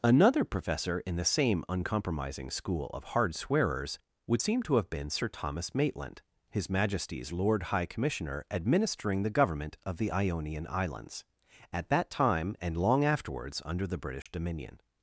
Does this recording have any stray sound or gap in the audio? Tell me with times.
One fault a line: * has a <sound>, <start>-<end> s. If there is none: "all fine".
* has a dropout, 14.2-14.3 s